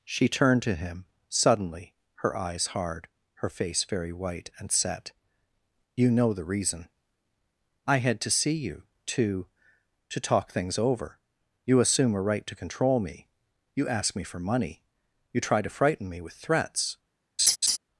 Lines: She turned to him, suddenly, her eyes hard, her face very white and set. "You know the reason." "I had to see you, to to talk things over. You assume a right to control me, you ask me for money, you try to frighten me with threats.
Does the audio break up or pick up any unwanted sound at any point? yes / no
yes